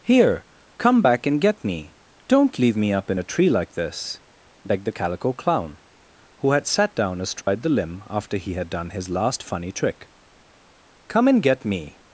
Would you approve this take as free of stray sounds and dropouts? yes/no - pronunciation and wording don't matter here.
no